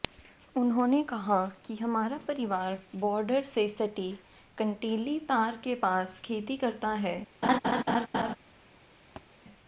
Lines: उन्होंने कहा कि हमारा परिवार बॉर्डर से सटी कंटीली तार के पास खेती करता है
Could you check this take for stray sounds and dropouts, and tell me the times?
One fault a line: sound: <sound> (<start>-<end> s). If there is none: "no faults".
sound: laugh (7.4-8.4 s)
sound: thud (9.2-9.3 s)